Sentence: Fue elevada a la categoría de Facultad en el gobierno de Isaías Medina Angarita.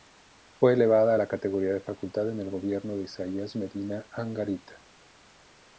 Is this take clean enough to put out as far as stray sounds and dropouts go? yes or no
yes